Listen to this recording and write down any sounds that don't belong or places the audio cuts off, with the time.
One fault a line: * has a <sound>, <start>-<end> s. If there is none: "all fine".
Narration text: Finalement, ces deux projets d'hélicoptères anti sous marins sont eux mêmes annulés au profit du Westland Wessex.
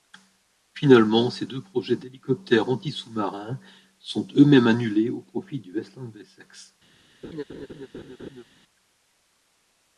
* has a laugh, 7.2-8.4 s